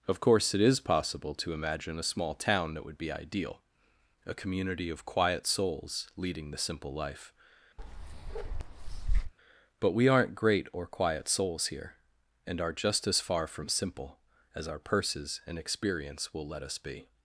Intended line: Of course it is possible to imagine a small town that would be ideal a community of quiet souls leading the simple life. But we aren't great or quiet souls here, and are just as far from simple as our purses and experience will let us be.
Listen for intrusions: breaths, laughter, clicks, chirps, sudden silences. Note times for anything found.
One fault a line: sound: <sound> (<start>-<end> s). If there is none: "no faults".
sound: bark (7.8-9.3 s)